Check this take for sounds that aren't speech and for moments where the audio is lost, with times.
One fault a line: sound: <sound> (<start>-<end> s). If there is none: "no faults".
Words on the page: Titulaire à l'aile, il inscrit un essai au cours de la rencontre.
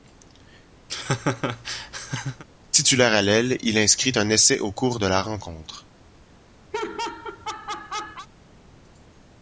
sound: laugh (0.9-2.4 s)
sound: laugh (6.7-8.3 s)